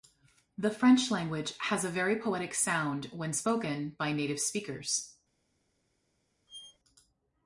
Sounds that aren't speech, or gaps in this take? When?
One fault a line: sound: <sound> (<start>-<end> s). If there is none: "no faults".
sound: squeak (6.5-6.8 s)